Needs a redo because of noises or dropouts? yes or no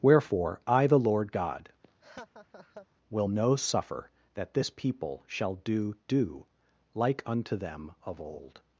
yes